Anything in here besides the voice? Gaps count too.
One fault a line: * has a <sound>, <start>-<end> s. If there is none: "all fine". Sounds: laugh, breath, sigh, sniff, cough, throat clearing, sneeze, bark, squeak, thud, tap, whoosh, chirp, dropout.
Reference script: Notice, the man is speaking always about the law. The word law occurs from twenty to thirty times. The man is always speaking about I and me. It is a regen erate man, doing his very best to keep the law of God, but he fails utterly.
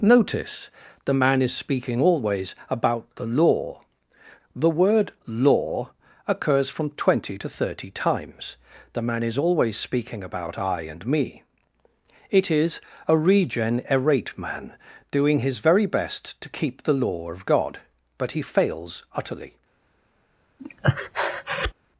* has a breath, 20.6-21.7 s